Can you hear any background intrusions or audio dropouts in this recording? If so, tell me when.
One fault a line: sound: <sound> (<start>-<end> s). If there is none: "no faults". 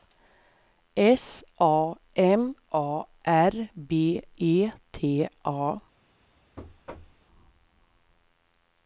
sound: thud (6.6-7.2 s)